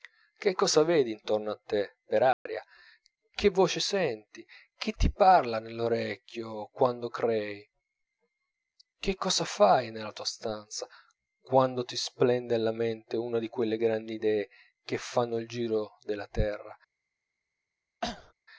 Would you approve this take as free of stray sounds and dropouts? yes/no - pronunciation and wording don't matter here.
no